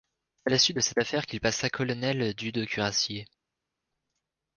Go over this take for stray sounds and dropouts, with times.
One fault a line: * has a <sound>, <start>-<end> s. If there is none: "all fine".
all fine